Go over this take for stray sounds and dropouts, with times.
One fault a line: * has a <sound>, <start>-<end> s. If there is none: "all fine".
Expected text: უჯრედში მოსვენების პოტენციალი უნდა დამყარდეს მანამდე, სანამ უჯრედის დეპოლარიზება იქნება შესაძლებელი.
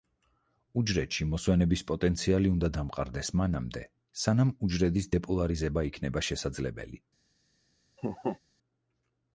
* has a laugh, 8.0-8.4 s